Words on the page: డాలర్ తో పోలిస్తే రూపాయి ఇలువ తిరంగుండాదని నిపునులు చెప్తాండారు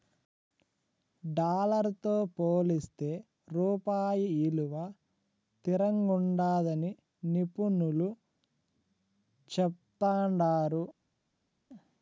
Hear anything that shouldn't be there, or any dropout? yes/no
no